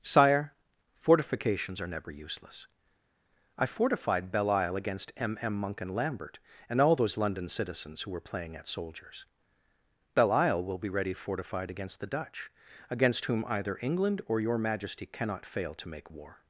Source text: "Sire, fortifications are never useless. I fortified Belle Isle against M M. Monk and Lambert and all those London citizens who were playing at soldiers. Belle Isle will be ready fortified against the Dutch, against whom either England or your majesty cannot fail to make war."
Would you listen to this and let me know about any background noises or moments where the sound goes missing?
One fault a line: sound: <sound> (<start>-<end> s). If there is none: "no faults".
no faults